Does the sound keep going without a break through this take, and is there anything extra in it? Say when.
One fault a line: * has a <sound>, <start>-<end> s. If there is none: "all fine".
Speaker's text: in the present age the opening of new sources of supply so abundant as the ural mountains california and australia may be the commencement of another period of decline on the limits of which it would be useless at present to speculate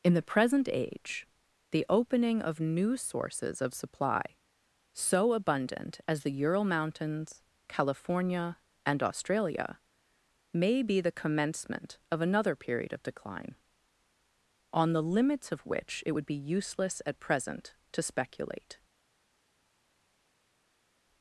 all fine